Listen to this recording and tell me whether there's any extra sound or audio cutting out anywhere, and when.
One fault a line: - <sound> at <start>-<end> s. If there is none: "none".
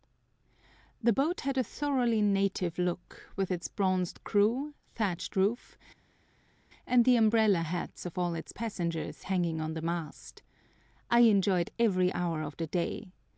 none